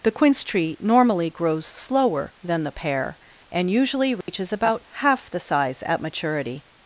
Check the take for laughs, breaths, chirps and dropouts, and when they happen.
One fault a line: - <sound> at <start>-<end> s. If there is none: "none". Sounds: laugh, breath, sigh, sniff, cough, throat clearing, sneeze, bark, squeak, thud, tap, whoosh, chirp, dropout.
- dropout at 4.2-4.3 s